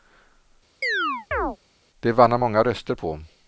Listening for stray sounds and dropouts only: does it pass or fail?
fail